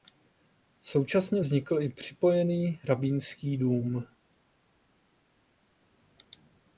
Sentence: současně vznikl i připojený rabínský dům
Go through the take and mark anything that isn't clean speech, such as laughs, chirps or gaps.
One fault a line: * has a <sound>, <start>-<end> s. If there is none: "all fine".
all fine